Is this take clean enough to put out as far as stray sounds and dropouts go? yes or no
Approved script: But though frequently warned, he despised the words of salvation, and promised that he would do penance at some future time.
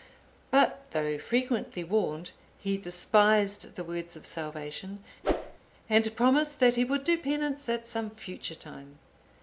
no